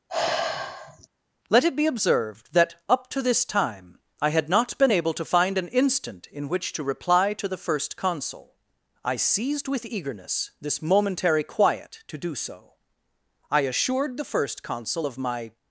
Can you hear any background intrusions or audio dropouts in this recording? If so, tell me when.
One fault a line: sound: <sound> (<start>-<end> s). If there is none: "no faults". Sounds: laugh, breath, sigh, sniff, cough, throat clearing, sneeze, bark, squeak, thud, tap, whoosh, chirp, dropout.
sound: sigh (0.1-1.1 s)